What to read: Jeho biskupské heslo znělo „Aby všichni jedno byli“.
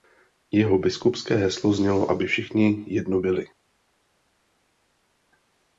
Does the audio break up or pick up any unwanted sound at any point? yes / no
no